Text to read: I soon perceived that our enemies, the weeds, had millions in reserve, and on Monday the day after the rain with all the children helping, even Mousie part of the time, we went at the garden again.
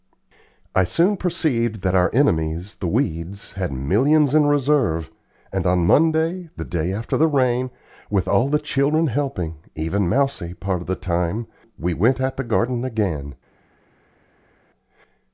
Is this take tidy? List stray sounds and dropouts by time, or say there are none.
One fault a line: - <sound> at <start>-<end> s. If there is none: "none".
none